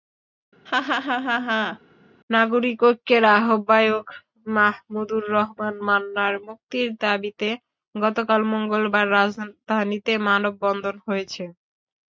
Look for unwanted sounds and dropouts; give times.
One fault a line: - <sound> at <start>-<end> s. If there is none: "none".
- laugh at 0.7-1.8 s